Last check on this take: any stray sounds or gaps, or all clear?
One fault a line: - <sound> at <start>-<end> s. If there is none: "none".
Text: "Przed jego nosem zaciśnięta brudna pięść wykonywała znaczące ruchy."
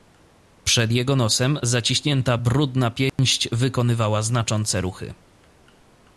- dropout at 3.1-3.2 s